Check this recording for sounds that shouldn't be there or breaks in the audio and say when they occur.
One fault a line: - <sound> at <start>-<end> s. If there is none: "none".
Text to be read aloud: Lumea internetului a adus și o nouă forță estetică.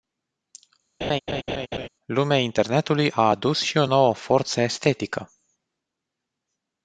- laugh at 1.0-1.9 s